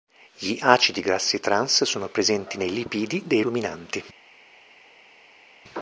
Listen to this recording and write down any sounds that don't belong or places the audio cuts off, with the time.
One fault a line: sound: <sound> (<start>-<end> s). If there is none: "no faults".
no faults